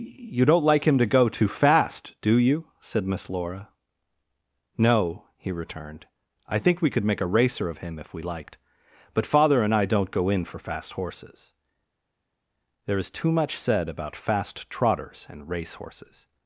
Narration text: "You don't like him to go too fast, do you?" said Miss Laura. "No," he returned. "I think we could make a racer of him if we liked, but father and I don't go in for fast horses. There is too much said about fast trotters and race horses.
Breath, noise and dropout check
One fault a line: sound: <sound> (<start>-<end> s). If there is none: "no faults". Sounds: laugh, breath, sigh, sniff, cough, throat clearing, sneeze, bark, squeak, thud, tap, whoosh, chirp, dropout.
no faults